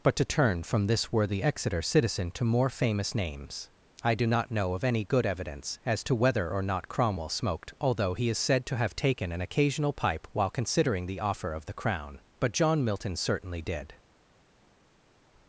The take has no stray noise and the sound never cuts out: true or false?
true